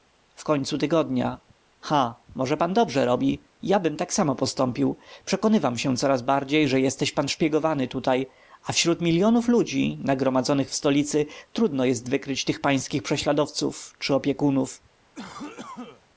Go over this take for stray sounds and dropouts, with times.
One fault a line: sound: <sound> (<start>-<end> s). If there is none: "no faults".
sound: cough (15.1-16.1 s)